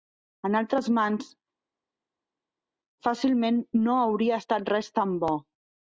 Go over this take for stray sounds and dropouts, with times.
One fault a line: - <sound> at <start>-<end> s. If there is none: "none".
none